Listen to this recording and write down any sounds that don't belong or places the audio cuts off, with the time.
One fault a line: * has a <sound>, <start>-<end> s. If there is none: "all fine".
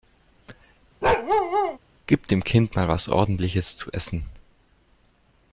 * has a bark, 1.0-1.8 s